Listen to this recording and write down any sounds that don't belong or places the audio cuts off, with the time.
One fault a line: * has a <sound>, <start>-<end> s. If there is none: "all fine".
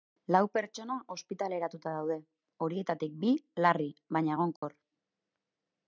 * has a dropout, 4.6-4.6 s